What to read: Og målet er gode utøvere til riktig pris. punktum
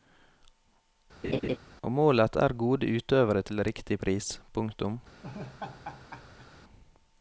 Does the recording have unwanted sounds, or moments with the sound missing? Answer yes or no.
yes